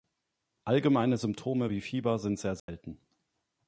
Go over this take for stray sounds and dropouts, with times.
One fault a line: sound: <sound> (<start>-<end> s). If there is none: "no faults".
sound: dropout (2.6-2.7 s)